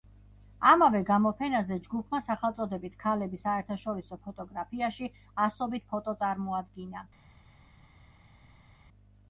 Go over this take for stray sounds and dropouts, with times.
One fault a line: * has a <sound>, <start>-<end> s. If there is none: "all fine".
all fine